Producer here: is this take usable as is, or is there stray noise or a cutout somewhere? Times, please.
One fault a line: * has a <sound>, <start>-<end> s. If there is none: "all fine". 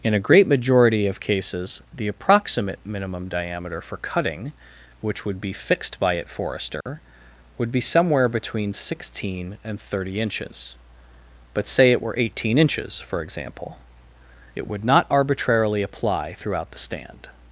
* has a dropout, 6.8-6.9 s